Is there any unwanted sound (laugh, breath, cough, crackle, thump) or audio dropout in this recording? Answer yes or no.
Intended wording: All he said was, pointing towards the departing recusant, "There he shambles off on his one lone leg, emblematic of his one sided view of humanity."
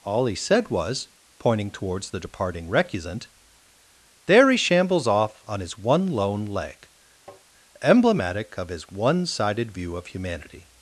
yes